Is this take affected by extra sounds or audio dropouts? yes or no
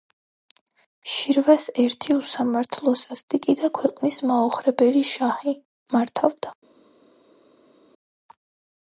no